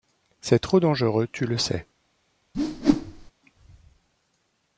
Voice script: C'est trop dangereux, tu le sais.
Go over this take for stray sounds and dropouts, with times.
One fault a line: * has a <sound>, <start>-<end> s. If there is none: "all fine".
* has a whoosh, 2.5-3.3 s